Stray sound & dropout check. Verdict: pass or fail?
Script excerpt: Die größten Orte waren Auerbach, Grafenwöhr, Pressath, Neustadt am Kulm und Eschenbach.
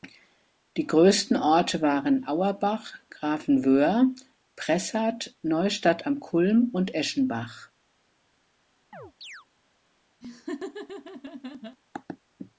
fail